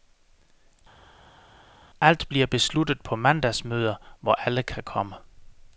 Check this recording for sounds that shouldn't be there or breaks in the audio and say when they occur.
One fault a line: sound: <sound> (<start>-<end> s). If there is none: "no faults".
no faults